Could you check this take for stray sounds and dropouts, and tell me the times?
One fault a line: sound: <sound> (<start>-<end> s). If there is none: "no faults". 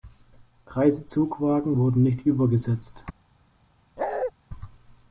sound: bark (4.0-4.3 s)